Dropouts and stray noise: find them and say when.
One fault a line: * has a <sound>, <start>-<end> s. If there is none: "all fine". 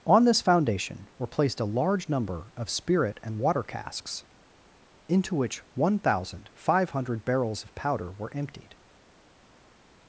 all fine